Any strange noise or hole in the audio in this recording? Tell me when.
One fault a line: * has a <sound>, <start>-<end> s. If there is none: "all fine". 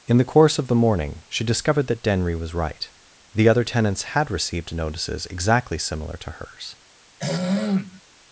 * has a throat clearing, 7.2-8.0 s